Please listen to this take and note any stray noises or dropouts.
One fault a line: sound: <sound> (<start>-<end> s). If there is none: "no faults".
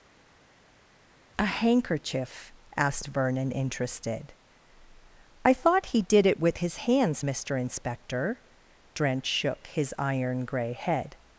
no faults